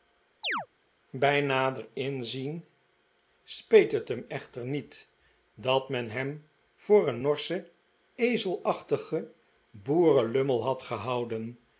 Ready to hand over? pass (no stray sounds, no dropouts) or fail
fail